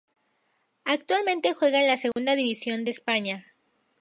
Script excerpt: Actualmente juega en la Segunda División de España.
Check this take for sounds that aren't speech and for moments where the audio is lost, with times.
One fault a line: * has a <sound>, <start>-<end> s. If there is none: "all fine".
* has a dropout, 2.1-2.2 s